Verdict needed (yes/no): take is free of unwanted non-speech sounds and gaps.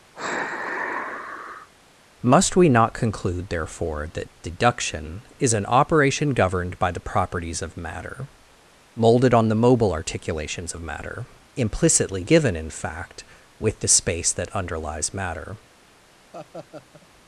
no